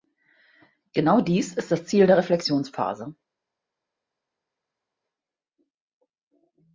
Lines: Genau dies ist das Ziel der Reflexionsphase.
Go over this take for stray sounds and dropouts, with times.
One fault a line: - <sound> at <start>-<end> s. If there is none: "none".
none